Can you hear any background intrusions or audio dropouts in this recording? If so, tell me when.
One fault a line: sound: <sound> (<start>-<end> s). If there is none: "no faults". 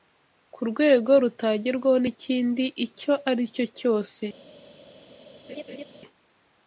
sound: laugh (5.5-5.8 s)